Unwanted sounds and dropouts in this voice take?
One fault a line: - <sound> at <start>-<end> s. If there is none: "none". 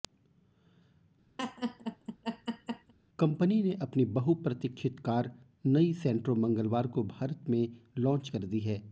- laugh at 1.4-2.9 s